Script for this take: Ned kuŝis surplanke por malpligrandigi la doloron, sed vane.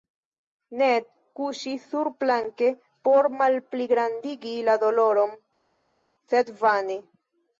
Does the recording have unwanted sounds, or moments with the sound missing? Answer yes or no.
no